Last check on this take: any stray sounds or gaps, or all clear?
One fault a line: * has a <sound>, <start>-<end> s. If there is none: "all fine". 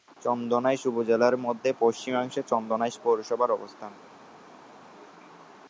all fine